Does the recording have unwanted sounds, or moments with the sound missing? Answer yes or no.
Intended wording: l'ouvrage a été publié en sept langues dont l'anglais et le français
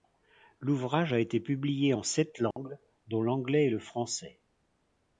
yes